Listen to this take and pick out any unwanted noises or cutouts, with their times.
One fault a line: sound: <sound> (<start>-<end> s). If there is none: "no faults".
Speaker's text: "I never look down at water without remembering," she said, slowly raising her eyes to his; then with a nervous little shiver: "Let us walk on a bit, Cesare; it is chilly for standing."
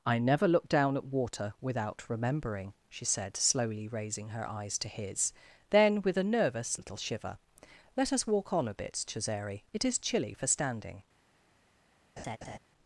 sound: laugh (12.2-12.6 s)